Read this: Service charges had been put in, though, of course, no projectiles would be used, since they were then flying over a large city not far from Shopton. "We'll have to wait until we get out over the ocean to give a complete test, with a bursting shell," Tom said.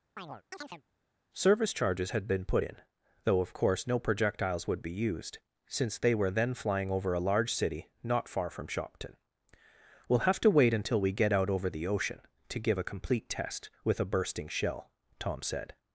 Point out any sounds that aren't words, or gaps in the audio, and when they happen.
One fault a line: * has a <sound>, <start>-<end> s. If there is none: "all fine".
* has a chirp, 0.2-0.8 s